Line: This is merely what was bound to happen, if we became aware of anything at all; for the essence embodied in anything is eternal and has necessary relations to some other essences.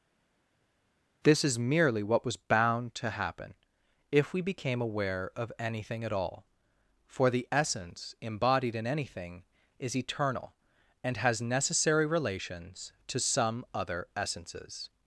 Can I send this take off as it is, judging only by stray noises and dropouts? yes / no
yes